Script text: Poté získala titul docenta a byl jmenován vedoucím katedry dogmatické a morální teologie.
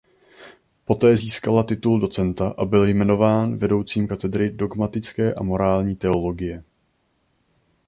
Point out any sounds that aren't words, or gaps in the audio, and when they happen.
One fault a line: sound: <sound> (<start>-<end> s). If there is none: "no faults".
no faults